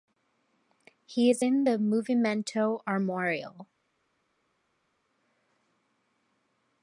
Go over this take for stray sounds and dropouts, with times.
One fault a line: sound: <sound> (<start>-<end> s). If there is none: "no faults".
no faults